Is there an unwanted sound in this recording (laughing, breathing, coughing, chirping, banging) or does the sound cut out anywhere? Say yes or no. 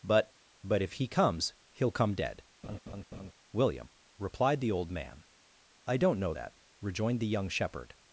yes